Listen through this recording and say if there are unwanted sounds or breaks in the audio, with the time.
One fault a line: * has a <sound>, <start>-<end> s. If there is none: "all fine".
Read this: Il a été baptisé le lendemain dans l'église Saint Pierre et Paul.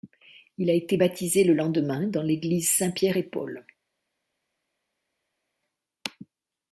all fine